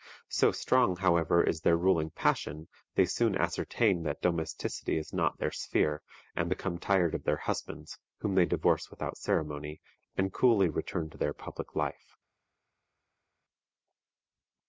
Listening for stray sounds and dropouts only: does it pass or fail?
pass